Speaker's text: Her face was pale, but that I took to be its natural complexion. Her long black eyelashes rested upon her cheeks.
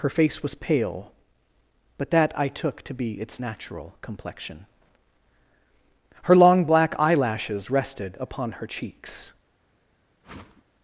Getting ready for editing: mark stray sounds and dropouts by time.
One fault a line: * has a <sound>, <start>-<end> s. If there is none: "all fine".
* has a whoosh, 10.2-10.6 s